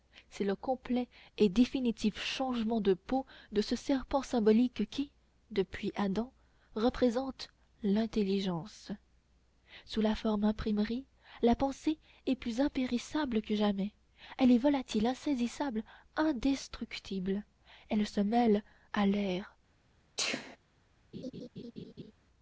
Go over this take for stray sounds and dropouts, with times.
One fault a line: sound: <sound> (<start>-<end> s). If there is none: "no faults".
sound: sneeze (20.2-20.6 s)
sound: laugh (21.1-22.1 s)